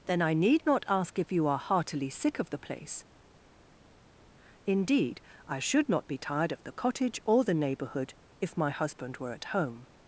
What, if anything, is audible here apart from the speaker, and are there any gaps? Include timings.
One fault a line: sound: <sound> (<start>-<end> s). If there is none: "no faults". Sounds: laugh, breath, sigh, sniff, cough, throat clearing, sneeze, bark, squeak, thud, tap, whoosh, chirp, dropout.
no faults